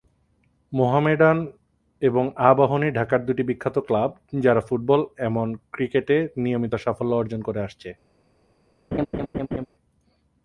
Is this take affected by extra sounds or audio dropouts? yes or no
yes